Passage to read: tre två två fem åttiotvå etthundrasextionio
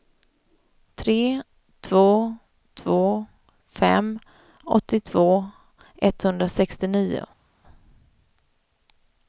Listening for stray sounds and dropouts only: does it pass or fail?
pass